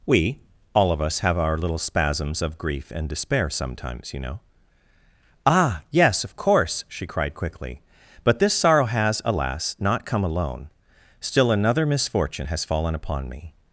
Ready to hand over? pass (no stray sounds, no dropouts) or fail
pass